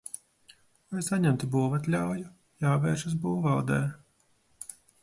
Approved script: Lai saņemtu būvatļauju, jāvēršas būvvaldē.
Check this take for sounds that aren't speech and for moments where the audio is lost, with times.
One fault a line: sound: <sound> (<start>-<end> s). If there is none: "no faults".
no faults